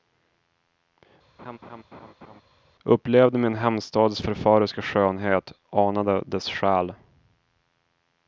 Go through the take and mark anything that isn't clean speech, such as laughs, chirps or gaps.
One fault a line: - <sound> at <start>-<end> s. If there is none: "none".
- laugh at 1.4-2.4 s